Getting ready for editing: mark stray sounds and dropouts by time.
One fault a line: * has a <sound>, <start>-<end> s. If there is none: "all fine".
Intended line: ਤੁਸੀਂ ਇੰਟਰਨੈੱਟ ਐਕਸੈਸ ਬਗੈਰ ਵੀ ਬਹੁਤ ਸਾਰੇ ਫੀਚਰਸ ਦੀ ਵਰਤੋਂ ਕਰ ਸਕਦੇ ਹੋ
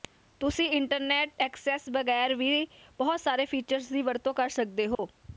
* has a dropout, 4.9-5.0 s